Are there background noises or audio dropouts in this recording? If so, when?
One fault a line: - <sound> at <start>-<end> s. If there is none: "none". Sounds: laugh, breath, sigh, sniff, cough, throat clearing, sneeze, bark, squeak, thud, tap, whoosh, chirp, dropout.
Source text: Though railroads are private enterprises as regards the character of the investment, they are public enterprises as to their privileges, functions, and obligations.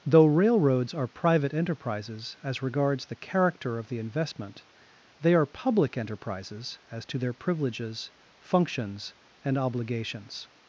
none